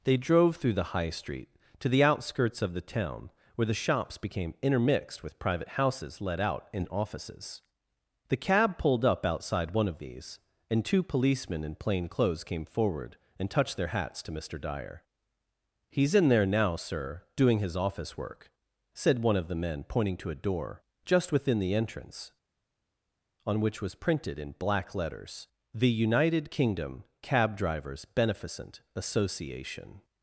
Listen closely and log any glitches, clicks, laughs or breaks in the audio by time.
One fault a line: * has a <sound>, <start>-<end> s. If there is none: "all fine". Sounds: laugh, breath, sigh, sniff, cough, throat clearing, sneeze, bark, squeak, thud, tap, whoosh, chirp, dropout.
all fine